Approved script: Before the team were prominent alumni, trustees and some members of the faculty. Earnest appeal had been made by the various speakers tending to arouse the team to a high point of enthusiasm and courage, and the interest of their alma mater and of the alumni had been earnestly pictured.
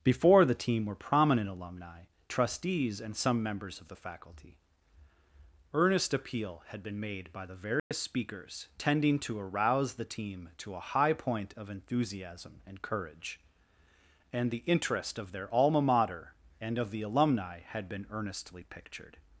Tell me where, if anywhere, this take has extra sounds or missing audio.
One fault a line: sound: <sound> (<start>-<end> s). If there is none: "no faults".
sound: dropout (7.8-7.9 s)